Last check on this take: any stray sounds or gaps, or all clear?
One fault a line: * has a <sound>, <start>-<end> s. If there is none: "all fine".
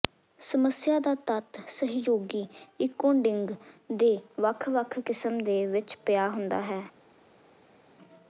all fine